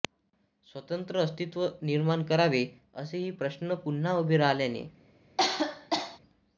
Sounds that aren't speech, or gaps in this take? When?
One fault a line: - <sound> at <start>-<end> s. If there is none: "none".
- cough at 5.4-6.2 s